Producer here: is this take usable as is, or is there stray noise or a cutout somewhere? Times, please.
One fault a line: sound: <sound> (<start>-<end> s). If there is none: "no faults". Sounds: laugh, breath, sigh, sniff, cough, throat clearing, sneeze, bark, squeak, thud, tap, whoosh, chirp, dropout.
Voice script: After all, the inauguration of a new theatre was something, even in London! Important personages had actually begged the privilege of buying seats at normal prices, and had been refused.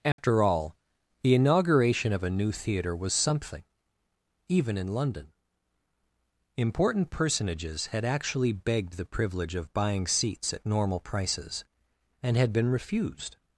sound: dropout (0.1-0.2 s)